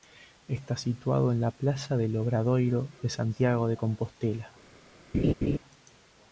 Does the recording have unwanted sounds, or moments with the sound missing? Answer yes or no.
yes